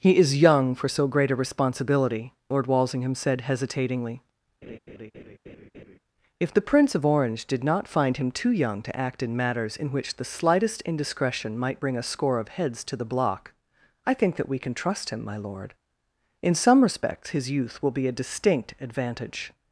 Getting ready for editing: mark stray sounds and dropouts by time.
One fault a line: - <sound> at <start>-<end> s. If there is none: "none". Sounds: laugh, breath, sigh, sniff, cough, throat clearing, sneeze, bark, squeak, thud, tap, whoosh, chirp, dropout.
- laugh at 4.6-6.0 s